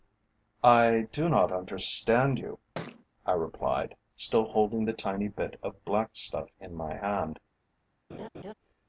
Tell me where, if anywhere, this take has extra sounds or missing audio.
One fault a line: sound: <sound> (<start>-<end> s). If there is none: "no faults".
sound: thud (2.7-3.0 s)
sound: laugh (8.1-8.5 s)